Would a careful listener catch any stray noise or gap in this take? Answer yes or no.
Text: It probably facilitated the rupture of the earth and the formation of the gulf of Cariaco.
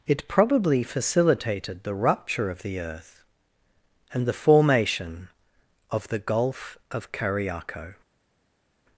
no